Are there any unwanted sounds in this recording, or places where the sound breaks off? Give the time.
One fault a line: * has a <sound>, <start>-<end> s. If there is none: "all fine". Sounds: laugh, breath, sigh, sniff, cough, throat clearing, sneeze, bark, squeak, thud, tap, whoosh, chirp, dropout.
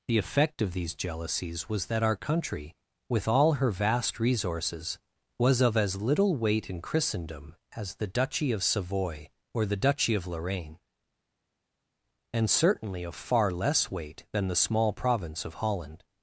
all fine